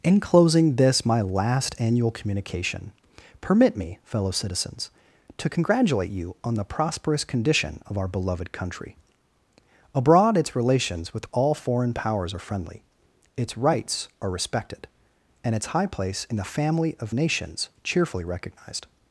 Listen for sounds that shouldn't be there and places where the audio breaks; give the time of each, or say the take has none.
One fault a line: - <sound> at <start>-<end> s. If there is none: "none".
none